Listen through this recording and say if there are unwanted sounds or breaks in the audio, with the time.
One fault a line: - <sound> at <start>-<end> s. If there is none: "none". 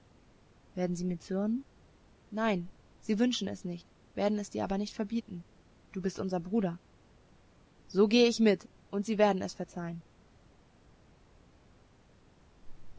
none